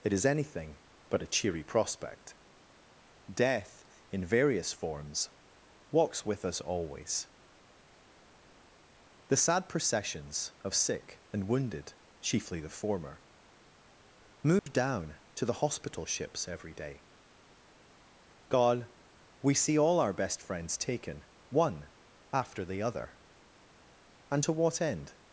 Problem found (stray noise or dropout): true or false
true